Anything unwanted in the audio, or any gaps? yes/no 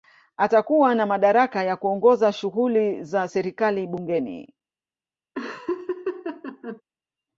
yes